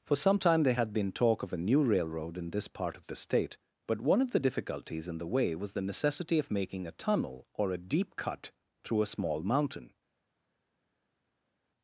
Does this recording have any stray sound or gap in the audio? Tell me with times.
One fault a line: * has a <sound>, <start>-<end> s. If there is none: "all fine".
all fine